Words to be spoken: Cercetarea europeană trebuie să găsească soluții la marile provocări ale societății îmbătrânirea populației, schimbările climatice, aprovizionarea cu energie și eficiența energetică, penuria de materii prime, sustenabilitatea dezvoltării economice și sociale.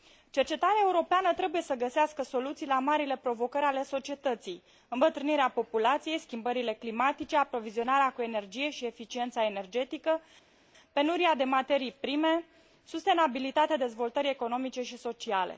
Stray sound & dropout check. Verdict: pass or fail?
pass